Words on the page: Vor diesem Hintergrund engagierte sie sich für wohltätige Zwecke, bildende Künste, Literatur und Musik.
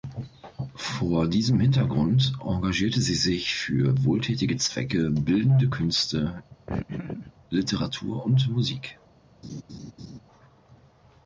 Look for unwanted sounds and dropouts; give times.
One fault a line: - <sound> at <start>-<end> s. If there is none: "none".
- laugh at 6.7-7.3 s
- laugh at 9.4-10.2 s